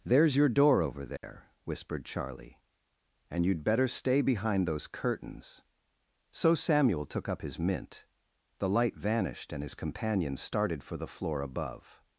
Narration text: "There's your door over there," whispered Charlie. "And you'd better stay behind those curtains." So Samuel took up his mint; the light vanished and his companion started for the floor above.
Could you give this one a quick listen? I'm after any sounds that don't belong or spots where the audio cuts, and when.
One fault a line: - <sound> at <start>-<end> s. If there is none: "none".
- dropout at 1.2-1.2 s